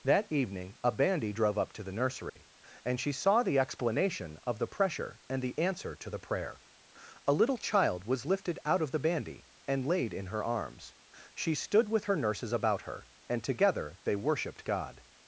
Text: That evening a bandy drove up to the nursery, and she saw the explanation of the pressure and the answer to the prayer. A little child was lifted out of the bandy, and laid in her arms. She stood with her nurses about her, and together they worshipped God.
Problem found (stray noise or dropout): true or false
true